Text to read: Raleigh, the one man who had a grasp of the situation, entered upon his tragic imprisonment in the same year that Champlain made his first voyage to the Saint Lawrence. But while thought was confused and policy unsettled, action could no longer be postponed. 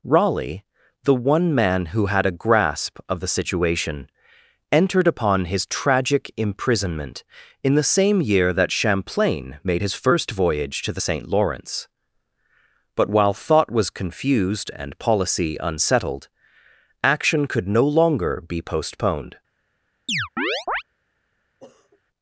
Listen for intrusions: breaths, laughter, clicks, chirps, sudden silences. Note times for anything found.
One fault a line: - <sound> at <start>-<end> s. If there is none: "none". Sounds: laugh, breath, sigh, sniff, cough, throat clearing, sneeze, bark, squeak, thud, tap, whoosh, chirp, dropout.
- chirp at 20.1-20.8 s
- sniff at 21.6-22.0 s